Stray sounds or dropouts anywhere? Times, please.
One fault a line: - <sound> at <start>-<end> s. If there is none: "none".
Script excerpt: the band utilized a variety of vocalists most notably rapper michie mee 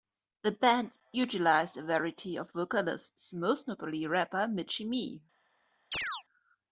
- chirp at 5.9-6.2 s